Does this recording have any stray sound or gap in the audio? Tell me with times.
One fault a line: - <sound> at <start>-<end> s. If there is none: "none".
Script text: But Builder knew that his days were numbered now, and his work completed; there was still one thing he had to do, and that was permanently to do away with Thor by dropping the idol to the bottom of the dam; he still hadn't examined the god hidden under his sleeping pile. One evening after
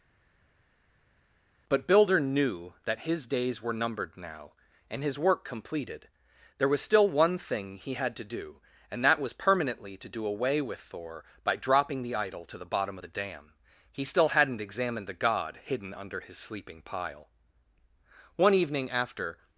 none